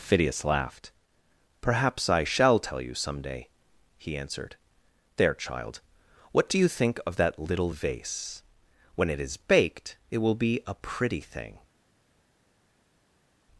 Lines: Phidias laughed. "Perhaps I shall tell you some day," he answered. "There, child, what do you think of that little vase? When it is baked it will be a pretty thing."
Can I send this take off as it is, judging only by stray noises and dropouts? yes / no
yes